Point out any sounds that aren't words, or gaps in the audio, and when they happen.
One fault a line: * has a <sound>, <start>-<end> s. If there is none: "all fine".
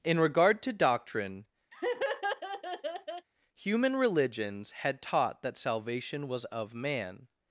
* has a laugh, 1.7-3.3 s